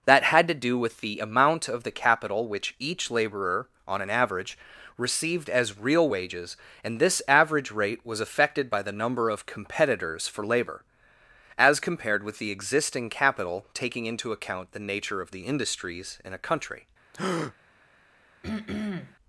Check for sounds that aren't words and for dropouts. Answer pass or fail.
fail